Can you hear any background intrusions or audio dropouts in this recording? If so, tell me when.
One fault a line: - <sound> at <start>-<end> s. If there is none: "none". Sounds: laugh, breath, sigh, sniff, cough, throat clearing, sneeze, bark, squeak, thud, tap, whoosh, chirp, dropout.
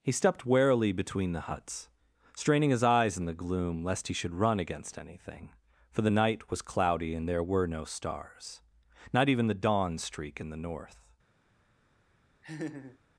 - laugh at 12.4-13.0 s